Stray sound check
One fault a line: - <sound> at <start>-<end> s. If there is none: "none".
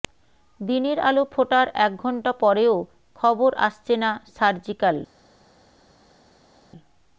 none